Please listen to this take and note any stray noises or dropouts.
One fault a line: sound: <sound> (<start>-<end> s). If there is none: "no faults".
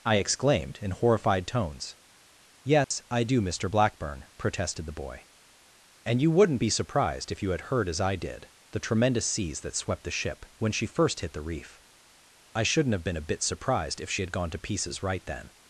sound: dropout (2.8-2.9 s)